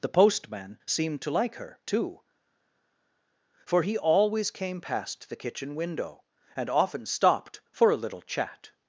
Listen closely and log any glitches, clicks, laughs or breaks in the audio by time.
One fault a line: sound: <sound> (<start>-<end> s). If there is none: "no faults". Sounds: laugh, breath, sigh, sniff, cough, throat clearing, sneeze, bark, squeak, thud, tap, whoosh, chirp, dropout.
no faults